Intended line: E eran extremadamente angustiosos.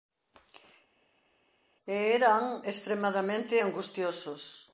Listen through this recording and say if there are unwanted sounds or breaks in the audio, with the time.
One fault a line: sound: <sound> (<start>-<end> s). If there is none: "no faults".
no faults